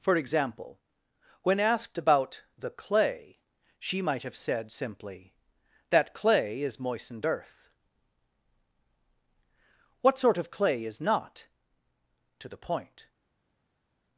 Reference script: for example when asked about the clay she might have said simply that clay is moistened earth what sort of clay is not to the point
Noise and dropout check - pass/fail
pass